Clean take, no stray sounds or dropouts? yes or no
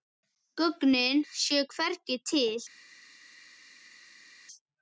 yes